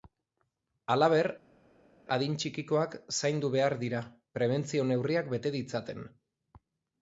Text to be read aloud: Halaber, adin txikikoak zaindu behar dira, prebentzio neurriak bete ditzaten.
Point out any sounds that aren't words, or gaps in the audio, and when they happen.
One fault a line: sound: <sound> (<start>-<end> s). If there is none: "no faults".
no faults